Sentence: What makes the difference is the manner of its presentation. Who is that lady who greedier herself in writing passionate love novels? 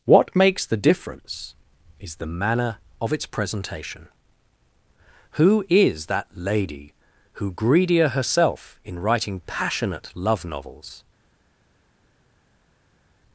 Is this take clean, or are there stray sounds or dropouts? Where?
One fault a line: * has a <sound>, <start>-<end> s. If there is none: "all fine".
all fine